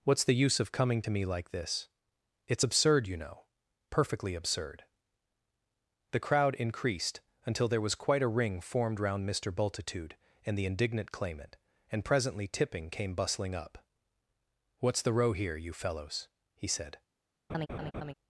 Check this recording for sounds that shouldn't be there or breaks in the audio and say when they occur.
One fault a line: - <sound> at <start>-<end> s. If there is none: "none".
- laugh at 17.5-18.1 s